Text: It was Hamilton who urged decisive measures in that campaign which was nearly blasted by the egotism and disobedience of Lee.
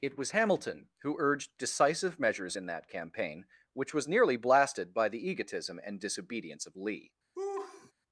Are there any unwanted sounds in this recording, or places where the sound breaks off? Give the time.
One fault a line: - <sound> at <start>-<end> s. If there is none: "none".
- laugh at 7.3-7.9 s